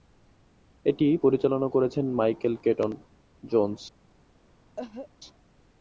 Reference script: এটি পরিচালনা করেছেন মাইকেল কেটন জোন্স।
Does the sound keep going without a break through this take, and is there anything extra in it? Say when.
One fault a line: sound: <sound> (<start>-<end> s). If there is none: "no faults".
sound: cough (4.8-5.1 s)